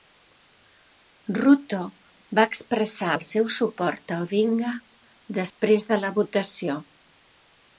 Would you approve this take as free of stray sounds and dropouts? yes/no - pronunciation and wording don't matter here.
no